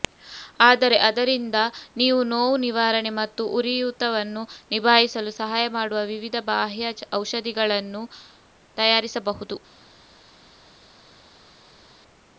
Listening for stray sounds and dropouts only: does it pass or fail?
pass